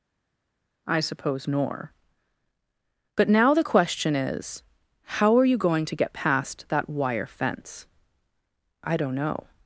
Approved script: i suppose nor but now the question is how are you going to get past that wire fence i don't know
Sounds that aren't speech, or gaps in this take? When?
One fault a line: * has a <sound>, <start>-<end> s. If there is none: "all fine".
all fine